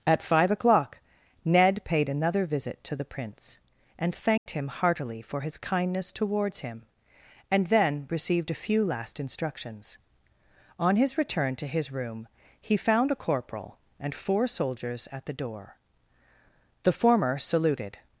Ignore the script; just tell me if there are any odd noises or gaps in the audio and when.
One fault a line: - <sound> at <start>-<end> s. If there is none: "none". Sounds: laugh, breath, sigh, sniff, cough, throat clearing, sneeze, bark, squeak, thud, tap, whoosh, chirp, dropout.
- dropout at 4.4-4.5 s